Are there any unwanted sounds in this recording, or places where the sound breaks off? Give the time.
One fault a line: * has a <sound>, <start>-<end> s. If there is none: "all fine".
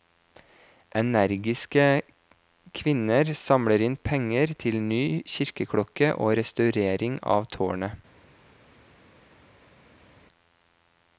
all fine